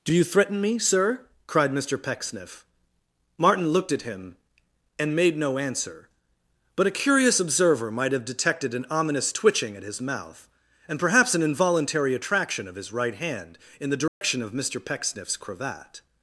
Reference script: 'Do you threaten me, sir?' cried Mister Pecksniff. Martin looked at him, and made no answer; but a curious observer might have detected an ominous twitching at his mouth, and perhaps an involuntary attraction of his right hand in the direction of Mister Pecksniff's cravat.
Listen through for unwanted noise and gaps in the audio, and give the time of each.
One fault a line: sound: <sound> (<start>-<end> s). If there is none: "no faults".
sound: dropout (14.1-14.2 s)